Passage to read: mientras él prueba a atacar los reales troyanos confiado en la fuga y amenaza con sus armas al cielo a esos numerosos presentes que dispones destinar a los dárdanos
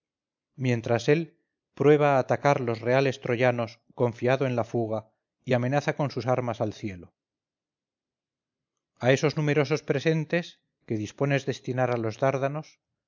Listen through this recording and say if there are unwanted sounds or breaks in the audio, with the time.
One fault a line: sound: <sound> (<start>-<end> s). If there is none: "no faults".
no faults